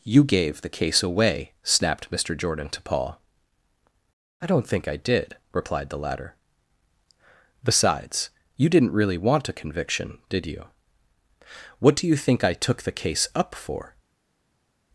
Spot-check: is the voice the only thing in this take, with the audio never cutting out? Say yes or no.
yes